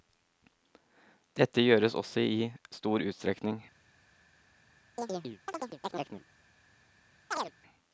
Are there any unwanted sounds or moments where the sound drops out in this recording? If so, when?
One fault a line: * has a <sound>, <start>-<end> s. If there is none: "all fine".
* has a chirp, 5.0-6.2 s
* has a chirp, 7.3-7.5 s